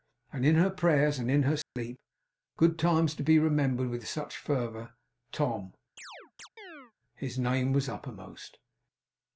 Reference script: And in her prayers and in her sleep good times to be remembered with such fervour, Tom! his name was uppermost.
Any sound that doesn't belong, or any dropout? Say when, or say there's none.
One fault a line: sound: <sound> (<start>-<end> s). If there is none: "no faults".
sound: dropout (1.6-1.8 s)
sound: chirp (6.0-6.9 s)